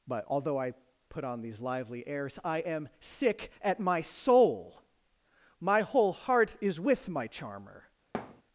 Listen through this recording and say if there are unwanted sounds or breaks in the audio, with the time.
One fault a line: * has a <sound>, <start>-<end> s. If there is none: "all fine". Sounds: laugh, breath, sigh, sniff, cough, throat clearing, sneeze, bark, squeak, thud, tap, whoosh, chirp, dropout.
* has a thud, 8.1-8.4 s